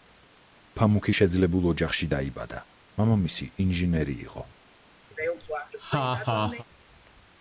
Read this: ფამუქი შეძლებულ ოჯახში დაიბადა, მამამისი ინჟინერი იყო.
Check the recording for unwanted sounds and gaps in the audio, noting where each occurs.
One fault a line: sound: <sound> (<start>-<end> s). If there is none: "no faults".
sound: laugh (5.1-6.6 s)